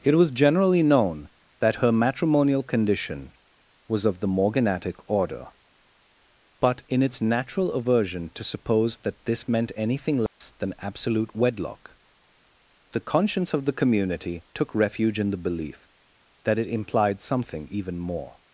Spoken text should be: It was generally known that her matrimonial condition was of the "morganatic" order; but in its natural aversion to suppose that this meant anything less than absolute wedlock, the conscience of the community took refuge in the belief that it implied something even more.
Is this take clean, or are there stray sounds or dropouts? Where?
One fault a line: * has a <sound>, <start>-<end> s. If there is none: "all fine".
* has a dropout, 10.3-10.4 s